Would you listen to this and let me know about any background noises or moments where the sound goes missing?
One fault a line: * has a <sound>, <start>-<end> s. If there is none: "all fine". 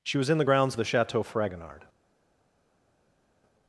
all fine